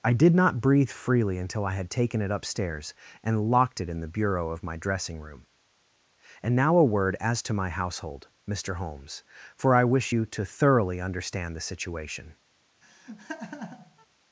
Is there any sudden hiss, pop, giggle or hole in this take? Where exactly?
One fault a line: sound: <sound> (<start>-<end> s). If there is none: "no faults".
sound: laugh (12.8-14.1 s)